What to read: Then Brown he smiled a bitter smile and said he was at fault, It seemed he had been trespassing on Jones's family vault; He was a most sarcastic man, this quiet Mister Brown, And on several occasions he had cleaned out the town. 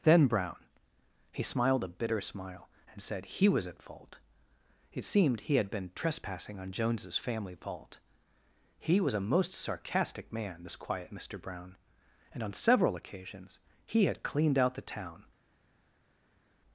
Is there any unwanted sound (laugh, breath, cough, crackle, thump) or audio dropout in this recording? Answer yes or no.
no